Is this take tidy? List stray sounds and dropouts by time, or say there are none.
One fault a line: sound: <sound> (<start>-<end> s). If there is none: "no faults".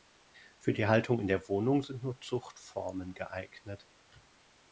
no faults